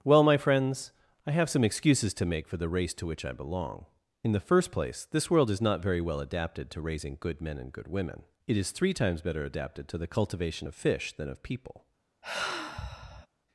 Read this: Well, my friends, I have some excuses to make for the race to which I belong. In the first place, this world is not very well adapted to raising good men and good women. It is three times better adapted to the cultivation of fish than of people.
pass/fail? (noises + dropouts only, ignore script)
fail